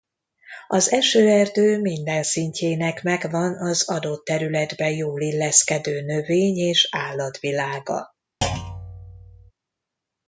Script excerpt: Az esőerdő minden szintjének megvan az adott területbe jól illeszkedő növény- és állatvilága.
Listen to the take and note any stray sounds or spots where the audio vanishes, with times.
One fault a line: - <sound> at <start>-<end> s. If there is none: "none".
- thud at 8.4-9.5 s